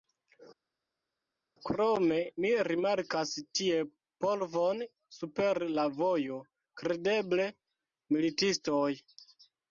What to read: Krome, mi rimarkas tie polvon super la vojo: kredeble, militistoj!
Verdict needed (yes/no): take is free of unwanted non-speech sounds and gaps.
yes